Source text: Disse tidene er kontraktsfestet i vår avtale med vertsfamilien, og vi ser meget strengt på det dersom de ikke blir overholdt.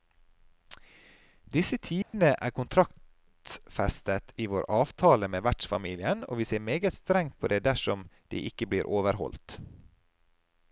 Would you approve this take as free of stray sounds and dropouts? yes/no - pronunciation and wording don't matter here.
no